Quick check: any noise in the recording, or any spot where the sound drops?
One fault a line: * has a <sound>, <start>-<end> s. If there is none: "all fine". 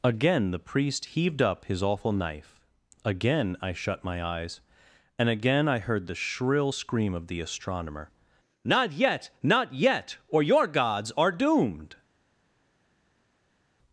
all fine